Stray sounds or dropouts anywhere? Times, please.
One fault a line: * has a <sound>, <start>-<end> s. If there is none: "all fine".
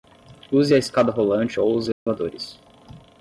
* has a dropout, 1.9-2.1 s